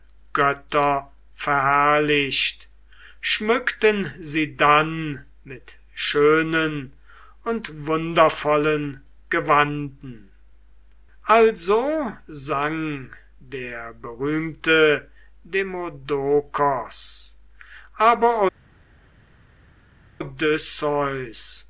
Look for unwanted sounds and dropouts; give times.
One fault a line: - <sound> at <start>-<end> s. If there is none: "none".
none